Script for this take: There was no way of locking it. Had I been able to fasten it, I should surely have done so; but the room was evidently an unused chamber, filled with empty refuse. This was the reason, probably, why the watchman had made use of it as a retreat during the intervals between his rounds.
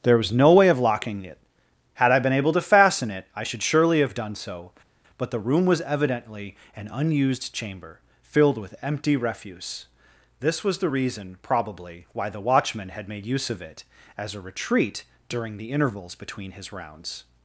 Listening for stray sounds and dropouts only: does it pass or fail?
pass